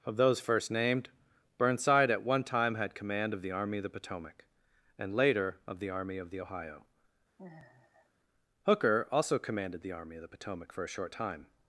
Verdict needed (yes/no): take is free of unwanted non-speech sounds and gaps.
no